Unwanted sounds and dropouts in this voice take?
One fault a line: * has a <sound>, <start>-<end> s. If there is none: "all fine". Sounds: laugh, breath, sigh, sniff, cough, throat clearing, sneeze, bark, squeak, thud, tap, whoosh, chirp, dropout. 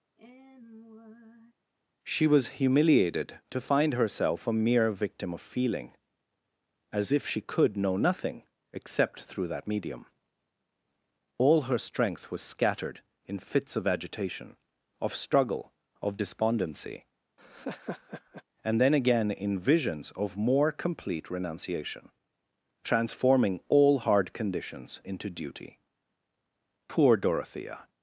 * has a sigh, 0.2-1.5 s
* has a laugh, 17.4-18.4 s